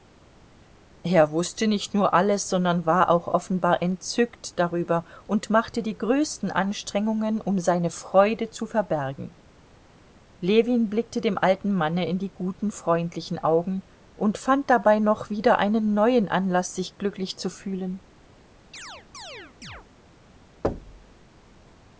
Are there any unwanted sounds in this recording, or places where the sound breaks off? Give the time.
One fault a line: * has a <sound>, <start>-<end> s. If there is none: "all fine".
* has a chirp, 18.7-19.9 s
* has a thud, 20.6-21.1 s